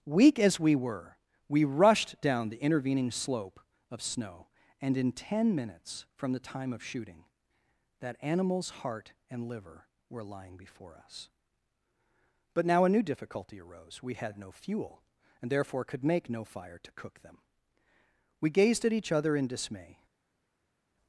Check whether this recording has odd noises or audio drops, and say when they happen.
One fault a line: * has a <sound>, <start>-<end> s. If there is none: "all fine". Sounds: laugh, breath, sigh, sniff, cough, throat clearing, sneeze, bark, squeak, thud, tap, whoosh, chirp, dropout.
all fine